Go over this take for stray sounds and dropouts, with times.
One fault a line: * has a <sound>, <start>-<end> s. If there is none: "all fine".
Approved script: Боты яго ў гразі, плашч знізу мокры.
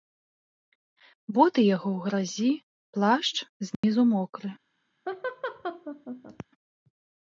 * has a dropout, 3.7-3.8 s
* has a laugh, 5.1-6.5 s